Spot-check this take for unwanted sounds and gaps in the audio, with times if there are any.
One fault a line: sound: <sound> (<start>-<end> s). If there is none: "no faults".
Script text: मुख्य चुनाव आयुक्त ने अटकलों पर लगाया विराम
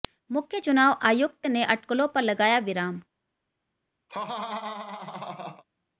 sound: laugh (4.1-5.6 s)